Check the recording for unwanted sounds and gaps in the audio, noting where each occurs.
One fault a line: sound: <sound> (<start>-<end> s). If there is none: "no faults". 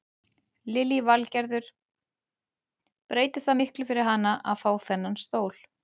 no faults